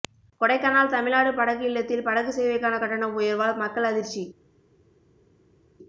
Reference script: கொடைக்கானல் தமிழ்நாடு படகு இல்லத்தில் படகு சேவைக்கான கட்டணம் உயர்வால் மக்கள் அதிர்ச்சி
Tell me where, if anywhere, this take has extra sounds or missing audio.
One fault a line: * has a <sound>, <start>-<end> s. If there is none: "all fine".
all fine